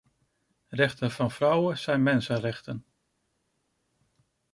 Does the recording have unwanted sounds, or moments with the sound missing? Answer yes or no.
no